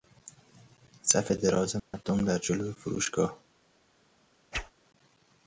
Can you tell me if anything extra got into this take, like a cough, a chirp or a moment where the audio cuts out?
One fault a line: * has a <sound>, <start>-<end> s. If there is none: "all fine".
* has a dropout, 1.8-1.9 s
* has a whoosh, 4.5-4.7 s